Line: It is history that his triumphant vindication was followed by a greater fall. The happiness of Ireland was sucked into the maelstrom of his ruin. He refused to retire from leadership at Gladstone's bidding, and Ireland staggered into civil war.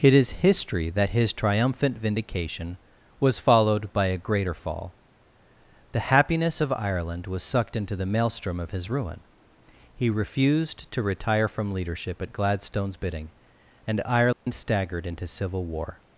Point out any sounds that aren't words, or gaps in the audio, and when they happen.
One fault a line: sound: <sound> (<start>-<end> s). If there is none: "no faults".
sound: dropout (14.3-14.5 s)